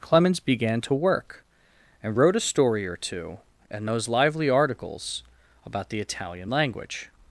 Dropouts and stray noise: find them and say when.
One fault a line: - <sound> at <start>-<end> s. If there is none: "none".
none